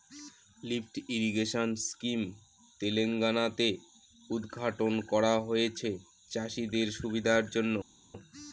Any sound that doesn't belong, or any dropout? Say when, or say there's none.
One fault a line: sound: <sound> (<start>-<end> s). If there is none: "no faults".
no faults